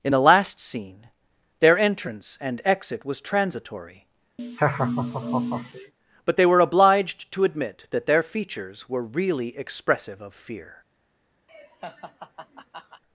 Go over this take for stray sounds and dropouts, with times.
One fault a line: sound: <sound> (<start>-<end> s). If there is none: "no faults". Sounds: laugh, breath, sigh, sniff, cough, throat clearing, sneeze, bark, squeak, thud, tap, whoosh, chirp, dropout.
sound: laugh (4.4-5.9 s)
sound: laugh (11.5-13.0 s)